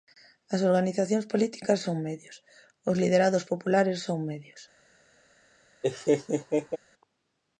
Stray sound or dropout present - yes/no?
yes